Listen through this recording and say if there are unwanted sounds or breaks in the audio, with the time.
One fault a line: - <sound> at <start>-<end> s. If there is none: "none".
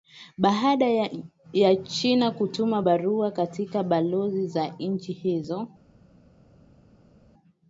none